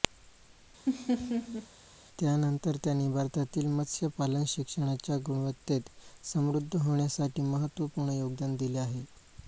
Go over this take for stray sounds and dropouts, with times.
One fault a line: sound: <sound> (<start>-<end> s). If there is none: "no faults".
sound: laugh (0.9-1.7 s)